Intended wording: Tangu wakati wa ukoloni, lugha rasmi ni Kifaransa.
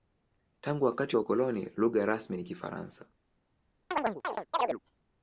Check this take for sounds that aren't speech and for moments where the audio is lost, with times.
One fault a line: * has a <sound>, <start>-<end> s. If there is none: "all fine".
* has a chirp, 3.9-4.8 s